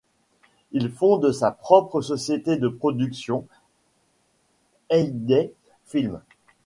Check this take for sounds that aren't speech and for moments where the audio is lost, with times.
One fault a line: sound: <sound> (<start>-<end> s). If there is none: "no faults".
no faults